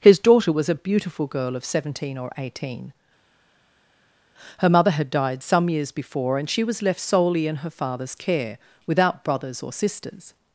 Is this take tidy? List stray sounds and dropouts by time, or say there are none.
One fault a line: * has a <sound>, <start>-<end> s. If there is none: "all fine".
all fine